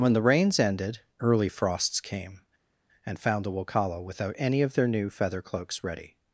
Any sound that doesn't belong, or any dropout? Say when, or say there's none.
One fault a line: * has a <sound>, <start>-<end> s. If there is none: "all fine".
all fine